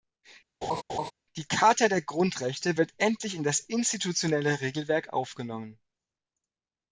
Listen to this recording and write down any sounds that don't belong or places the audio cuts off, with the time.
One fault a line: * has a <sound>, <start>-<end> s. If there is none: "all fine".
* has a laugh, 0.6-1.1 s